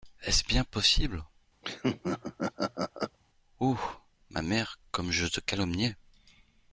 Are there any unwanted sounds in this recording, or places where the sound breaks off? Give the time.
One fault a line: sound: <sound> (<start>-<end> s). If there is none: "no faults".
sound: laugh (1.6-3.2 s)